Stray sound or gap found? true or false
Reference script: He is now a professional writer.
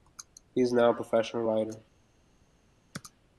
false